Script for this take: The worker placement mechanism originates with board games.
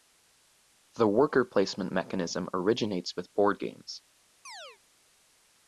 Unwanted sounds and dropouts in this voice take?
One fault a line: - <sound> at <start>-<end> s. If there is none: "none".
- chirp at 4.4-4.8 s